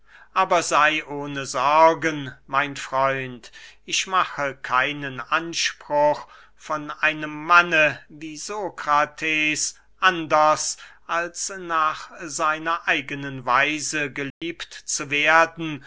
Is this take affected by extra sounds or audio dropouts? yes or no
yes